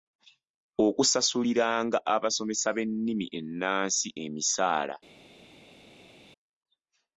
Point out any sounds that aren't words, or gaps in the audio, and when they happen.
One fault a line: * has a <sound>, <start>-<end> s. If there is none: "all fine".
all fine